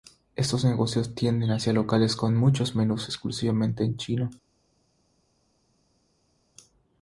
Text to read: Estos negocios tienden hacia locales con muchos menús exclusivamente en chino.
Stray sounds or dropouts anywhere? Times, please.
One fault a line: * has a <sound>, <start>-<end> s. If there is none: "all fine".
all fine